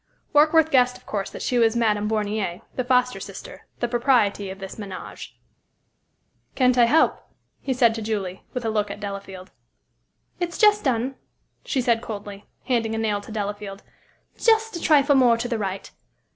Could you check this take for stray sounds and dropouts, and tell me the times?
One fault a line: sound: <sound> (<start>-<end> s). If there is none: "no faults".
no faults